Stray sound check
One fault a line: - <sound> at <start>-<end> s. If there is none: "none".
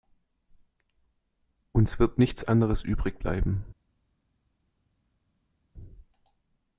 none